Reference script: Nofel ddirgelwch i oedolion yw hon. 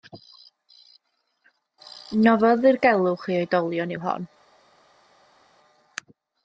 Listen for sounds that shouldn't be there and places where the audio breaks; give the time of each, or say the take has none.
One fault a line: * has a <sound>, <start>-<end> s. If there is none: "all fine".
all fine